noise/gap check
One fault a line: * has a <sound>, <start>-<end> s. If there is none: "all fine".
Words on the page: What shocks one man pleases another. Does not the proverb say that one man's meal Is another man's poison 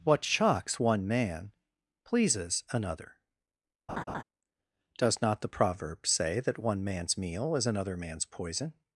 * has a laugh, 3.9-4.2 s